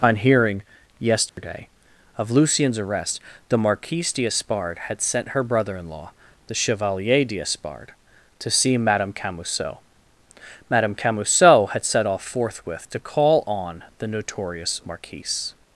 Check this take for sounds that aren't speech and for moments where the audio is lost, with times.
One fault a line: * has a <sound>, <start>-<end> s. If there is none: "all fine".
* has a dropout, 1.3-1.4 s